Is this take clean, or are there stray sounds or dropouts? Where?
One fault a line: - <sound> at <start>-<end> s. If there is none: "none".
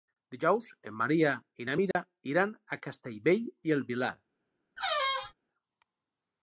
- dropout at 1.9-2.0 s
- squeak at 4.8-5.3 s